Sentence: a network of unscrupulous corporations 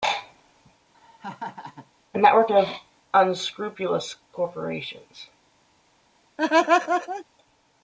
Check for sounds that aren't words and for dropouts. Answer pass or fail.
fail